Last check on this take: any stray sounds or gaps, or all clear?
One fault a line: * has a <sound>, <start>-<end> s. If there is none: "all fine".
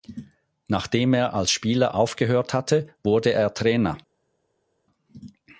all fine